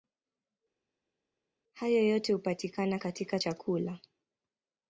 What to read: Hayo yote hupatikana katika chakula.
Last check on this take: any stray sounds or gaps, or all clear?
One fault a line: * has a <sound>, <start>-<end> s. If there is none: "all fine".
all fine